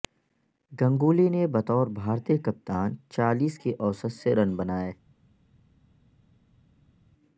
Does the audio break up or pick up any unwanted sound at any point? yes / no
no